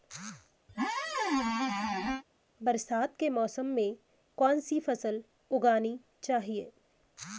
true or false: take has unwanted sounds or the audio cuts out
true